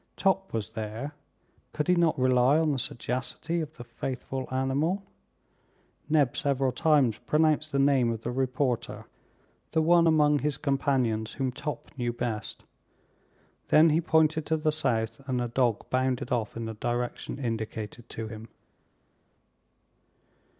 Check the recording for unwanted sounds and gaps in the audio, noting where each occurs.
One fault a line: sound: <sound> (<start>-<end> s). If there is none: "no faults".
no faults